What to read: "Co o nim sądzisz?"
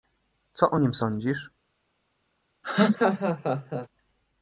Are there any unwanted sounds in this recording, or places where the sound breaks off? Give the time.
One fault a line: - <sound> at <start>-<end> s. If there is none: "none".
- laugh at 2.6-3.9 s